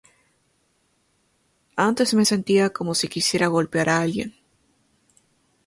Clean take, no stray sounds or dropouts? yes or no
yes